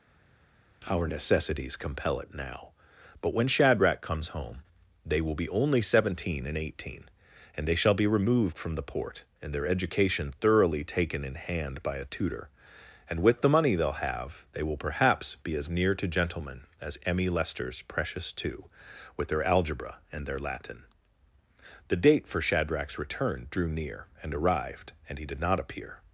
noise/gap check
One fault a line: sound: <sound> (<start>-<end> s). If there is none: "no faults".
no faults